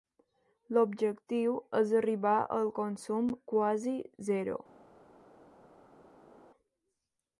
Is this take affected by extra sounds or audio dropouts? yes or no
no